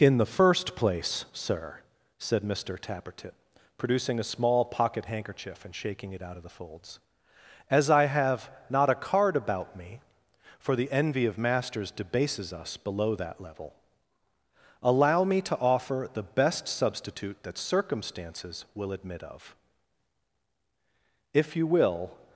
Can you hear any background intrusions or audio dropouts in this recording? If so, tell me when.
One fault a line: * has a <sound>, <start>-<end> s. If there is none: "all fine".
all fine